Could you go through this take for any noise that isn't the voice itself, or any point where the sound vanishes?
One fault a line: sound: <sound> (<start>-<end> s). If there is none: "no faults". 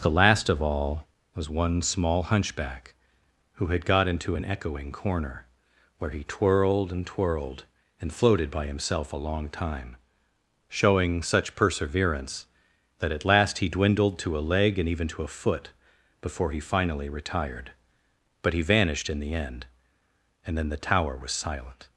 no faults